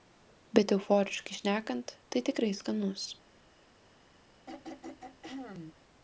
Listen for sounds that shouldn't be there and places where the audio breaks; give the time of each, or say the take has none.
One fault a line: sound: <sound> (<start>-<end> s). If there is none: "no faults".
sound: throat clearing (4.5-5.8 s)